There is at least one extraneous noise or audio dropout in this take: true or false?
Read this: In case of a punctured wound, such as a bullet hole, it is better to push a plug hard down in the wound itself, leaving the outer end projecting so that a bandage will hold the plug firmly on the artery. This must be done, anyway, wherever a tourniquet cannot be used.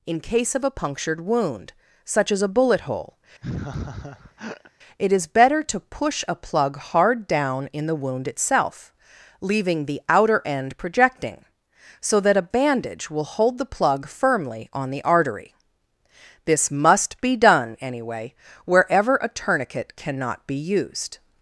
true